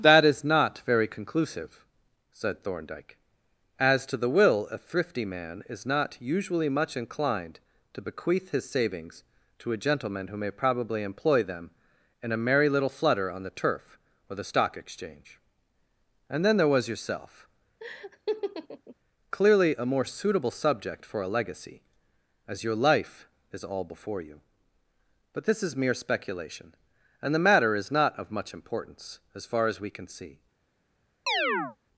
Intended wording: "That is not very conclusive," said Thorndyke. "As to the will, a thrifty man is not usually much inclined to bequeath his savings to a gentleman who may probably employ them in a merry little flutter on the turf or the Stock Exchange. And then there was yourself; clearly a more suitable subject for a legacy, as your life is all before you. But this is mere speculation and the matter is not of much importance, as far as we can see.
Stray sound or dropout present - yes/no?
yes